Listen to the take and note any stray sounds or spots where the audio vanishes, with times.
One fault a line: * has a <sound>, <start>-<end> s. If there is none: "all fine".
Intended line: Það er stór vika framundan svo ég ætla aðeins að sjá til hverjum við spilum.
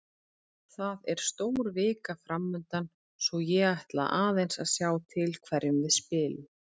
all fine